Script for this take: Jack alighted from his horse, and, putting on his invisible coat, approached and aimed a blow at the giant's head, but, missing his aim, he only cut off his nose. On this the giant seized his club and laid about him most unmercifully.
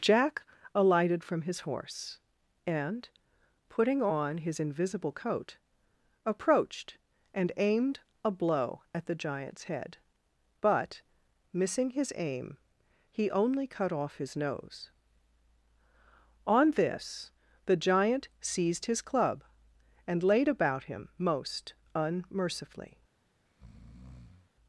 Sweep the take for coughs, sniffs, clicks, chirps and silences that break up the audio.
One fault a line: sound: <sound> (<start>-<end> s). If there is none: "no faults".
sound: breath (23.4-24.5 s)